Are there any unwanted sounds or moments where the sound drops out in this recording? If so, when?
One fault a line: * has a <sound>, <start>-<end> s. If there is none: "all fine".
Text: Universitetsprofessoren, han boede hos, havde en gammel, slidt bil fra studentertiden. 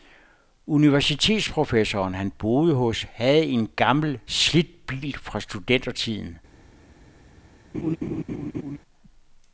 * has a laugh, 7.7-8.8 s